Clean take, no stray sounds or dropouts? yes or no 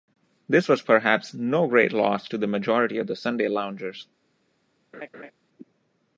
no